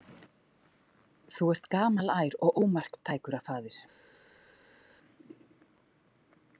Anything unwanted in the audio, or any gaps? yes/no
no